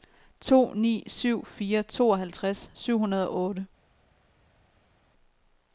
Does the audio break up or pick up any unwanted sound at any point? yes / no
no